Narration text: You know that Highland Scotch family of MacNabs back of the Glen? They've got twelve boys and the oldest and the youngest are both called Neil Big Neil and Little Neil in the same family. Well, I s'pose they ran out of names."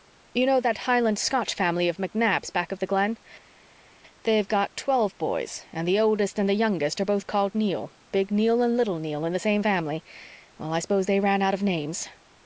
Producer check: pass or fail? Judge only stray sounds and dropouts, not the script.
pass